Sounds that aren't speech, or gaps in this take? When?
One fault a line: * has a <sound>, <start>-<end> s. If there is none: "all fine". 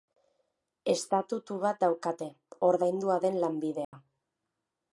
* has a dropout, 3.8-3.9 s